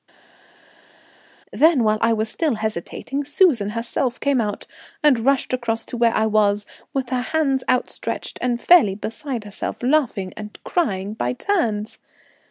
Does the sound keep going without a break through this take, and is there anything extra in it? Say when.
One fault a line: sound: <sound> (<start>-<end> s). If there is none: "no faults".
no faults